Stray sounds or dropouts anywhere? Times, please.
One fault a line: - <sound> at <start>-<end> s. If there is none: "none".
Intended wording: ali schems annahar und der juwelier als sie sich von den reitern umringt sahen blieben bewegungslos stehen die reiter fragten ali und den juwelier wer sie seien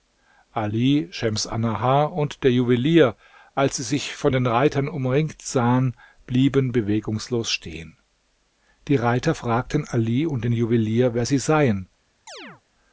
- chirp at 12.3-12.6 s